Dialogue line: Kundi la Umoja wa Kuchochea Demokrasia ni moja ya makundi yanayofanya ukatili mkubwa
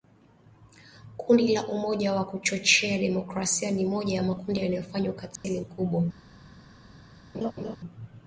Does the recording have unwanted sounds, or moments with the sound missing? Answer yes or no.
yes